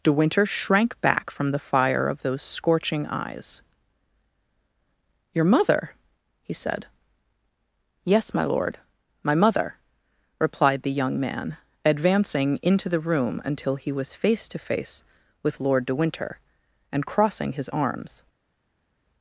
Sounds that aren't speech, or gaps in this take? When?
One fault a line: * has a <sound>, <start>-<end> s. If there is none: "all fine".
all fine